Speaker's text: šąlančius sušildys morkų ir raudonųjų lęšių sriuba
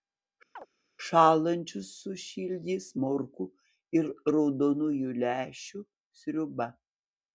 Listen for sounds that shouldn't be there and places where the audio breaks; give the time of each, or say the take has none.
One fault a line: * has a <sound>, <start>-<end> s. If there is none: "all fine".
* has a chirp, 0.6-0.7 s